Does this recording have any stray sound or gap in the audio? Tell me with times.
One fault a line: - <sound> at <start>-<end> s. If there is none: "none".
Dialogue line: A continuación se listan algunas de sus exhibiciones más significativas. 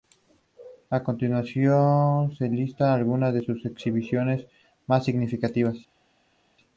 none